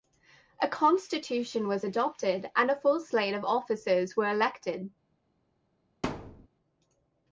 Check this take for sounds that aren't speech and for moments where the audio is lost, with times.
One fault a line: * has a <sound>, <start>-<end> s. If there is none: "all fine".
* has a thud, 6.0-6.5 s